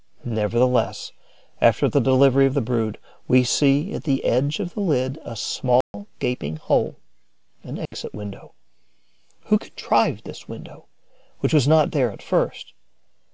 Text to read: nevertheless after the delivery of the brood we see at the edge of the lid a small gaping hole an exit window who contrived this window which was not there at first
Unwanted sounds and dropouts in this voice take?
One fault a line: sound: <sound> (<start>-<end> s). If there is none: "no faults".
sound: dropout (5.8-5.9 s)
sound: dropout (7.9-7.9 s)